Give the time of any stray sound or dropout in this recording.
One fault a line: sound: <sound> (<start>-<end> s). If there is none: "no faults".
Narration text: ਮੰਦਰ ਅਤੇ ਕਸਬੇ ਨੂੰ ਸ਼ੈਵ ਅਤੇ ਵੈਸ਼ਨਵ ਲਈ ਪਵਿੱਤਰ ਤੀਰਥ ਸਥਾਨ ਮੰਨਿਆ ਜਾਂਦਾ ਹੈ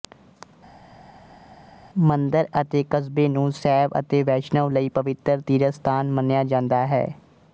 no faults